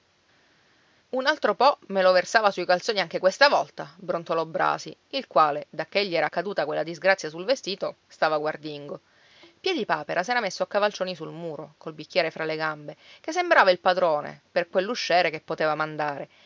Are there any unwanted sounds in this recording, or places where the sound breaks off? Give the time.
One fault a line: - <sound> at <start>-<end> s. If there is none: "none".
none